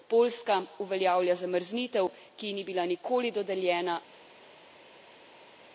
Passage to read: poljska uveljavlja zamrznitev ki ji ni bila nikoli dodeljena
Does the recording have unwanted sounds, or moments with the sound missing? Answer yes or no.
no